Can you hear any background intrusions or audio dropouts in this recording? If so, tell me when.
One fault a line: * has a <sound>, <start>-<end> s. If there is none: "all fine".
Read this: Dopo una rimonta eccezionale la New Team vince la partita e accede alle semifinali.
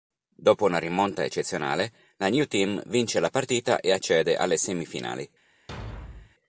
* has a thud, 5.7-6.3 s